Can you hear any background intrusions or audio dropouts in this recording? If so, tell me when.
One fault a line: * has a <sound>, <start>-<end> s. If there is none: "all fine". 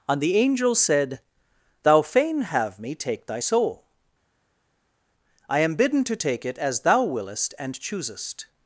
all fine